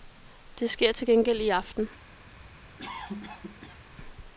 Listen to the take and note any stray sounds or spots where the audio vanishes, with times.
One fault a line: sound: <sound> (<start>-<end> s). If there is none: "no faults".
sound: cough (2.8-3.8 s)